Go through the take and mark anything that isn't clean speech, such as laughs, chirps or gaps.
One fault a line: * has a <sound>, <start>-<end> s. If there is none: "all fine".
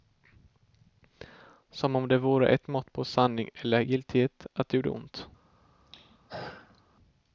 * has a throat clearing, 5.9-6.8 s